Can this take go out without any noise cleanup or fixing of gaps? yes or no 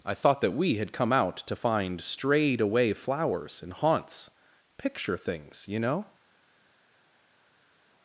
yes